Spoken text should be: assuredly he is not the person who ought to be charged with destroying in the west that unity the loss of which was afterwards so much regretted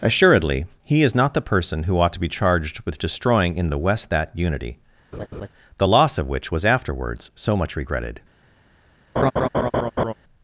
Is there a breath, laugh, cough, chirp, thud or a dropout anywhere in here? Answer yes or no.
yes